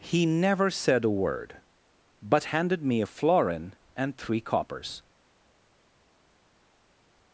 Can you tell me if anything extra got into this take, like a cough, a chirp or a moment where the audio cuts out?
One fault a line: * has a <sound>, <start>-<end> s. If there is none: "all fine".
all fine